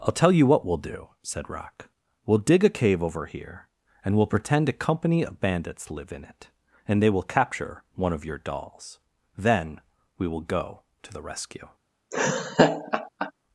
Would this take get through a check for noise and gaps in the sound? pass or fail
fail